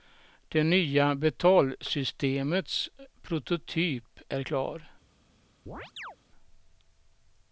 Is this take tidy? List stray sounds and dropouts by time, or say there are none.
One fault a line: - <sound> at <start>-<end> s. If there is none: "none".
- chirp at 5.7-6.2 s